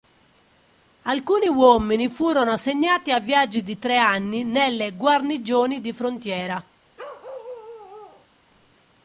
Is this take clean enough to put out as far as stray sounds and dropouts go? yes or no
no